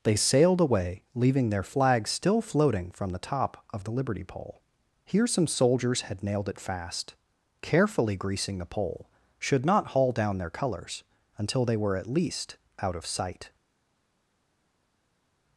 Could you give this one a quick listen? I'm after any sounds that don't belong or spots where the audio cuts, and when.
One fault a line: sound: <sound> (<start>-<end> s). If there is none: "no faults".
no faults